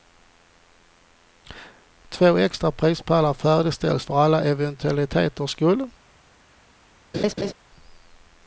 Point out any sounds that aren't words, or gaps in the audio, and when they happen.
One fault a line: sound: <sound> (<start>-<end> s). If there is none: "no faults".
sound: laugh (7.1-7.5 s)